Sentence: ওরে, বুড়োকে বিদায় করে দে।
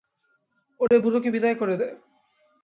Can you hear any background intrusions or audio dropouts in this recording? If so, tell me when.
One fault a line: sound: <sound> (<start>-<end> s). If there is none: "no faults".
sound: dropout (0.9-0.9 s)